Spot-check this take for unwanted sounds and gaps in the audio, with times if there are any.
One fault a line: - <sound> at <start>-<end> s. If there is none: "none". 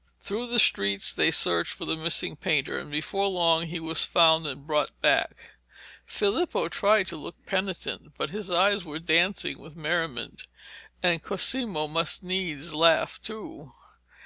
none